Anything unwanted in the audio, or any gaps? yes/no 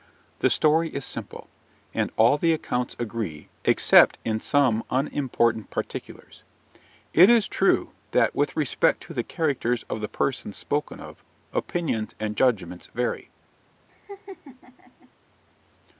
yes